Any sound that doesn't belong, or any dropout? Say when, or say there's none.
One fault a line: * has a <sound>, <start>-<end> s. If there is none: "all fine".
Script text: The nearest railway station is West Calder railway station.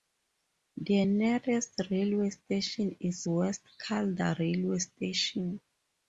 all fine